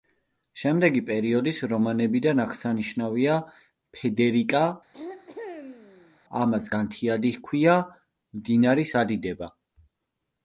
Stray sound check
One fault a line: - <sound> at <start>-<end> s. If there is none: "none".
- throat clearing at 4.9-6.2 s